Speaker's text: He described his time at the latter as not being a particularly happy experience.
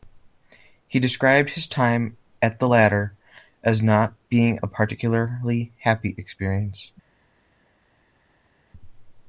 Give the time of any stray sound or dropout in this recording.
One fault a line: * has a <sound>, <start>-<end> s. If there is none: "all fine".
all fine